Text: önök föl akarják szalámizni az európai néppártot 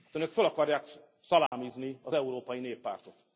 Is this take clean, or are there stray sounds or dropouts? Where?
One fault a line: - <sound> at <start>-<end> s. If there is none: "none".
- dropout at 1.5-1.5 s